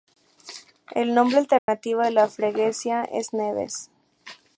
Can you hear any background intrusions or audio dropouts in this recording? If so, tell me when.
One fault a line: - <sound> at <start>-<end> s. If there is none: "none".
- dropout at 1.6-1.7 s